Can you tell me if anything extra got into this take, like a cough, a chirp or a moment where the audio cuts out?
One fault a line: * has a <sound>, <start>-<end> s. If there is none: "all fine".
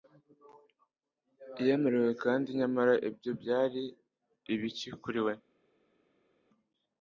all fine